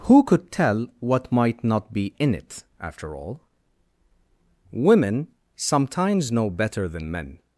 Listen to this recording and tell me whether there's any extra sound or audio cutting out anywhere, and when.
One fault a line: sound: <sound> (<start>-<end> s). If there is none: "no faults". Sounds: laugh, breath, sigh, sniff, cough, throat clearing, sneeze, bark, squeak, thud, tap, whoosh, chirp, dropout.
no faults